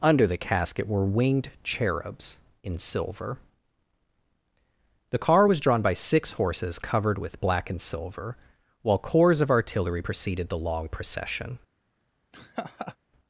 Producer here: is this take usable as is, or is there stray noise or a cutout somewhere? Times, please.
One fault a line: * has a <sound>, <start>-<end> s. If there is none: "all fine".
* has a laugh, 12.3-13.0 s